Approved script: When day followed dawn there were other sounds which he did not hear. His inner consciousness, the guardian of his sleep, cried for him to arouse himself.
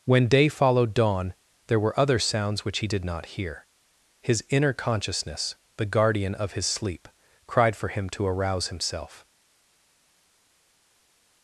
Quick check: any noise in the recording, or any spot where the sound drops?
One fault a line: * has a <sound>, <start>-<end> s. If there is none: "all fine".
all fine